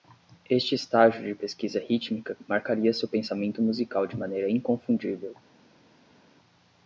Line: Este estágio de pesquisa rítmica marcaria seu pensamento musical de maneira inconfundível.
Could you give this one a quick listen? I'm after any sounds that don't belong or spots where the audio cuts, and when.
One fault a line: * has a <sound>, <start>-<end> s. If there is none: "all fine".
all fine